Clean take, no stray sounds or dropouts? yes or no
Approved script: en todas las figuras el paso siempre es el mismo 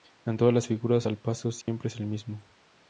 no